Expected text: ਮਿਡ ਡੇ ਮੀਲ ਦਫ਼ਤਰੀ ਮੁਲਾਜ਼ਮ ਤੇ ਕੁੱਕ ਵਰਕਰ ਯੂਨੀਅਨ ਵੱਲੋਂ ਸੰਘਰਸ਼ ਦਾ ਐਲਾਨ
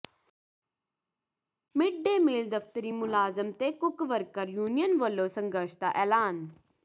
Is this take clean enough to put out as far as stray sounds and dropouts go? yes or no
yes